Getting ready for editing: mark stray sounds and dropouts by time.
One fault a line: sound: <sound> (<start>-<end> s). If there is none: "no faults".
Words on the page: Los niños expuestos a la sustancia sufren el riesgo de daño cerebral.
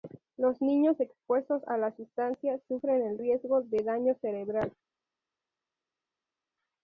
no faults